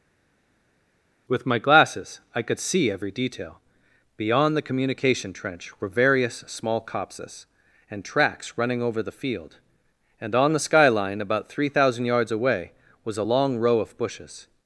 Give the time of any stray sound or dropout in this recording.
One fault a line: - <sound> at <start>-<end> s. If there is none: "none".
none